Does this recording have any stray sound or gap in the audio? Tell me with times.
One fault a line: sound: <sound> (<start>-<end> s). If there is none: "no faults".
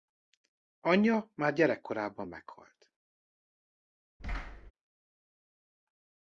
sound: thud (4.2-4.7 s)